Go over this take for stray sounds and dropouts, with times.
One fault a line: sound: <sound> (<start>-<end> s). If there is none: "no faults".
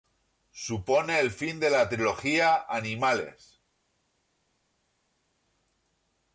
no faults